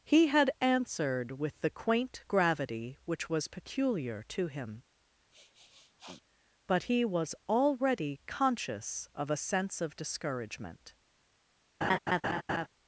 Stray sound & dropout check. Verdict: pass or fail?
fail